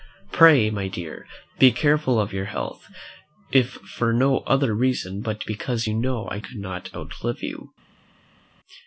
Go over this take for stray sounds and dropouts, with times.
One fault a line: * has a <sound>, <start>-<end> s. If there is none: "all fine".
all fine